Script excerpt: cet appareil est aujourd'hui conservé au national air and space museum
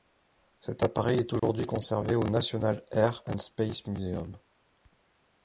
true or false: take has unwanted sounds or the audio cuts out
true